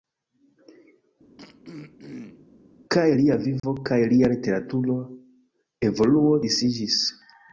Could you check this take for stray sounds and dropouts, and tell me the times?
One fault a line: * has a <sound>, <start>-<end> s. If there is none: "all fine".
* has a throat clearing, 1.4-2.5 s
* has a dropout, 3.6-3.6 s